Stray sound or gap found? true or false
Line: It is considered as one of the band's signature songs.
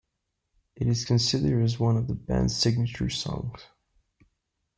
false